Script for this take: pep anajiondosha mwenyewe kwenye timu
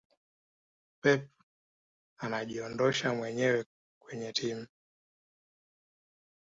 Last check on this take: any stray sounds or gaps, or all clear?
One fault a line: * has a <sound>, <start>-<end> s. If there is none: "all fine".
all fine